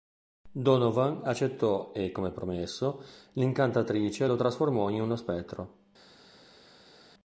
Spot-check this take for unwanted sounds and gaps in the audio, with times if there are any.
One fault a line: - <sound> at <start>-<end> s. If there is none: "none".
none